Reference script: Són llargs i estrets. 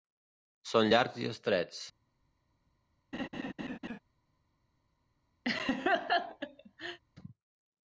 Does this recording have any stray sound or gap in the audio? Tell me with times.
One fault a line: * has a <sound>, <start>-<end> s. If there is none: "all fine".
* has a laugh, 3.1-4.0 s
* has a laugh, 5.4-7.0 s